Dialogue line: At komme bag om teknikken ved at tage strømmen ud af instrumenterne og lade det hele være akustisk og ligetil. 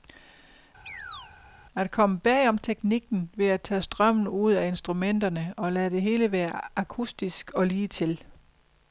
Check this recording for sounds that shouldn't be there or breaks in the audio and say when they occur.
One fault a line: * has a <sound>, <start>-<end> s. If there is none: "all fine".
* has a chirp, 0.9-1.3 s